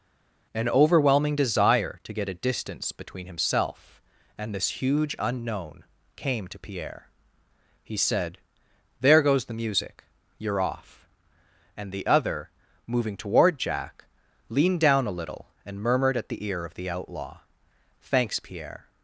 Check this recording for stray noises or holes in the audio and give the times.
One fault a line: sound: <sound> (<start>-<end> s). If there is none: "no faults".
no faults